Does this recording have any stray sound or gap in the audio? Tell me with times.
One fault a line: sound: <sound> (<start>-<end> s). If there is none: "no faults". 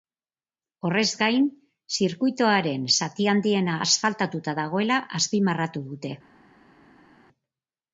no faults